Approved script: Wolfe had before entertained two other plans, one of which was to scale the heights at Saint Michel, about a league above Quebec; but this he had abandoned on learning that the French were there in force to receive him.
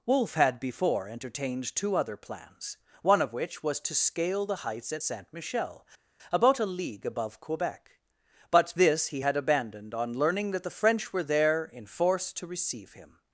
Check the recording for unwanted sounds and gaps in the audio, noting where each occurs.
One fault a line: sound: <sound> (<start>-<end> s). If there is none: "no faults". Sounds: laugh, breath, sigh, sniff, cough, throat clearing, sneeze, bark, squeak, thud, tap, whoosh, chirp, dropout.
no faults